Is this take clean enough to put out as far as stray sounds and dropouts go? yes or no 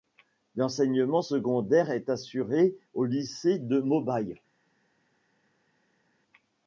yes